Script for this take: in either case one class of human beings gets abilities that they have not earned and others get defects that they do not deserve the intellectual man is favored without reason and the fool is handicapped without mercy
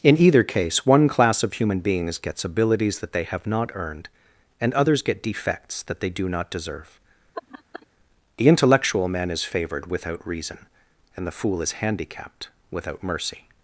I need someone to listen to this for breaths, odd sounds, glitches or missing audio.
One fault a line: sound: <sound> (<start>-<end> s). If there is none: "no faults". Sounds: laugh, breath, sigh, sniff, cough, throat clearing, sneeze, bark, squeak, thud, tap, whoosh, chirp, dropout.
sound: laugh (7.3-7.9 s)